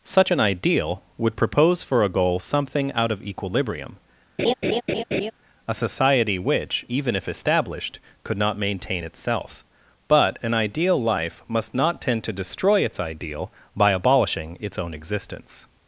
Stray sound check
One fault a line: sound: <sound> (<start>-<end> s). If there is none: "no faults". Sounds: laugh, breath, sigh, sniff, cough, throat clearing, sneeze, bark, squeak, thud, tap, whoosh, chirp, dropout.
sound: laugh (4.4-5.3 s)